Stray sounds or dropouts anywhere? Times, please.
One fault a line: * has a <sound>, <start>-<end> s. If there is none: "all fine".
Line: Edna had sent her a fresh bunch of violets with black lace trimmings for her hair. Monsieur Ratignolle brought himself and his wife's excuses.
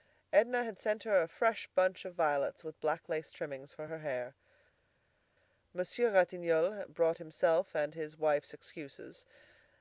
all fine